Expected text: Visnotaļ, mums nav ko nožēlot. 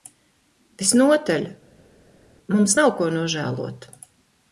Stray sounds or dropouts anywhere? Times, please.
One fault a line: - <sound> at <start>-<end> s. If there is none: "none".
none